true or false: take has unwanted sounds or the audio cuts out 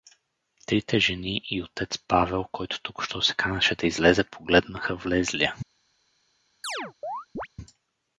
true